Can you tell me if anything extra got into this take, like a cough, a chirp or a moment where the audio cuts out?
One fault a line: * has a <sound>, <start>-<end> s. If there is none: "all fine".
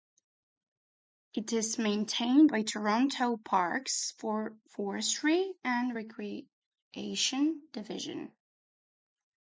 all fine